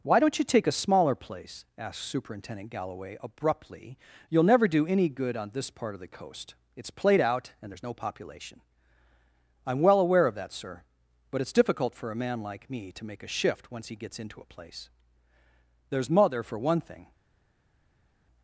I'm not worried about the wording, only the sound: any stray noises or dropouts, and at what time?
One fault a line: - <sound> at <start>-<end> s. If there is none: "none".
none